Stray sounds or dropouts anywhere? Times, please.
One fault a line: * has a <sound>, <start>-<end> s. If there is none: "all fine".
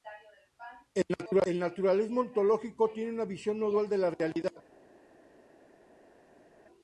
all fine